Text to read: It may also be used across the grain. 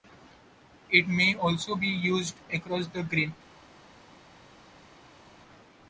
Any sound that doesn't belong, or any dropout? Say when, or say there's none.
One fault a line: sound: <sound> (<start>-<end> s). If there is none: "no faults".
no faults